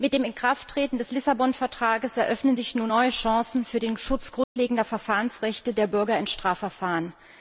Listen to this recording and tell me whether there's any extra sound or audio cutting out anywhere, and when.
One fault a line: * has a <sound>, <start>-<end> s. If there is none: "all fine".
* has a dropout, 4.4-4.6 s